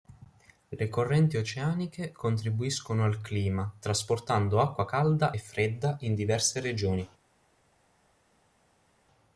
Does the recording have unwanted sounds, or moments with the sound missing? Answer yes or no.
no